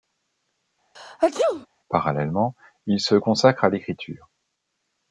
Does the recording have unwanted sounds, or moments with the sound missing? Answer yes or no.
yes